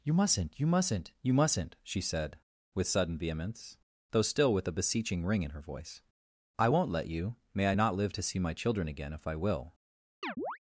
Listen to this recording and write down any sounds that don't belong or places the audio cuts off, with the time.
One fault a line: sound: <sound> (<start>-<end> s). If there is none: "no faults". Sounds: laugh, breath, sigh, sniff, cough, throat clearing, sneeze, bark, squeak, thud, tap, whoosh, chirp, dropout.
sound: chirp (10.2-10.6 s)